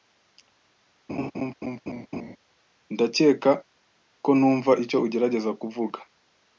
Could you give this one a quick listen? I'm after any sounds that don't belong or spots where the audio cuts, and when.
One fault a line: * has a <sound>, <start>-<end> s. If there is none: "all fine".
* has a laugh, 1.1-2.4 s